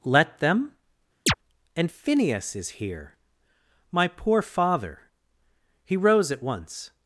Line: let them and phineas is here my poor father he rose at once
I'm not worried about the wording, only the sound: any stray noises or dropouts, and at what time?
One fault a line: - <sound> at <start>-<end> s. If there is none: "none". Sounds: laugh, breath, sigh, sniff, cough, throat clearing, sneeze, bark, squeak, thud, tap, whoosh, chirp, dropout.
- chirp at 1.3-1.3 s